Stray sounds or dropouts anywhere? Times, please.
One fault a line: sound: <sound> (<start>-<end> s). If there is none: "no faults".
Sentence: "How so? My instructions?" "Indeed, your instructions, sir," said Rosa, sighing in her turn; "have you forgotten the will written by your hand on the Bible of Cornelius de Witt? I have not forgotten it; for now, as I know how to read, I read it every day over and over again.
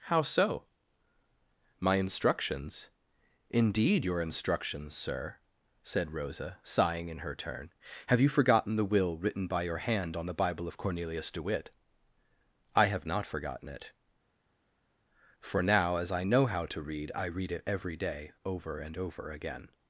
no faults